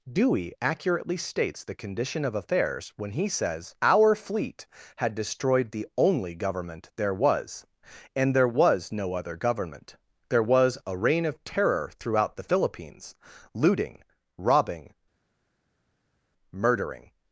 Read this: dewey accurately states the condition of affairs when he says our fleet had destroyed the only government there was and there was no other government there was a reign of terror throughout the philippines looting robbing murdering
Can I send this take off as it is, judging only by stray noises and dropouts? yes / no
yes